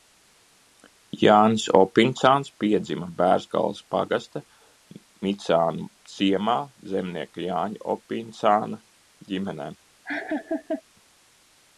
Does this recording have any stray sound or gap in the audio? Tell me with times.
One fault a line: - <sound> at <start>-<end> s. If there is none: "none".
- laugh at 10.0-10.8 s